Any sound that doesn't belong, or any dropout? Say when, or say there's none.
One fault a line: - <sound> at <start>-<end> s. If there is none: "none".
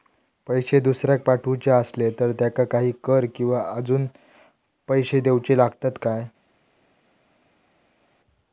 none